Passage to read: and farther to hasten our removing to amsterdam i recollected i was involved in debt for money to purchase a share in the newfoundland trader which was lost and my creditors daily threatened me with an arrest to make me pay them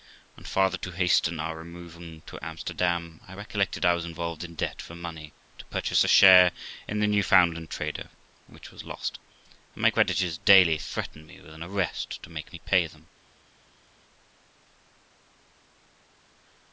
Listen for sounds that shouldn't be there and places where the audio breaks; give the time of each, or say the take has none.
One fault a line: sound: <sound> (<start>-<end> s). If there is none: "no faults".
no faults